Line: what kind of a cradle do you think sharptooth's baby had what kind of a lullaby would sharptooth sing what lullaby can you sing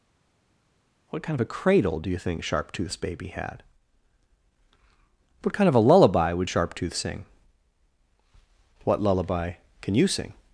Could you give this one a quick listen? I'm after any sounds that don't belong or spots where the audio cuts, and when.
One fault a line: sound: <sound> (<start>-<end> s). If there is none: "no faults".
no faults